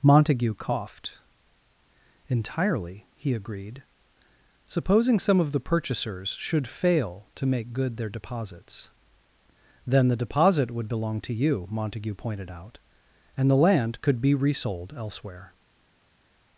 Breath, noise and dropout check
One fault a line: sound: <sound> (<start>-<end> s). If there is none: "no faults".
no faults